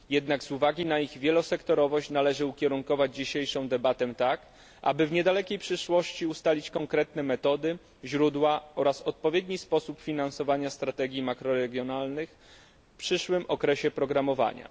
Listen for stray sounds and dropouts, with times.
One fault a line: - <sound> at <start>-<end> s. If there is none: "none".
none